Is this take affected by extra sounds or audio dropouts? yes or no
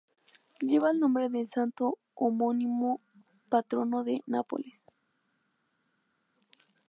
no